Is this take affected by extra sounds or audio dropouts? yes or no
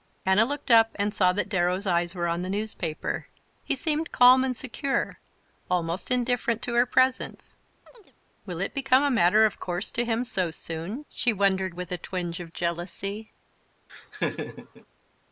yes